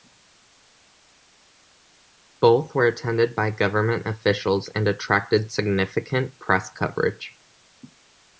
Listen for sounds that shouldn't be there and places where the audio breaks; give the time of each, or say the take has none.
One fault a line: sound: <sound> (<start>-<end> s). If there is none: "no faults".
no faults